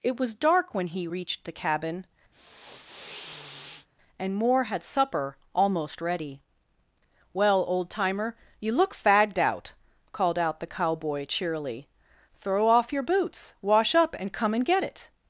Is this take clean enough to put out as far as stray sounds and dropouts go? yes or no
no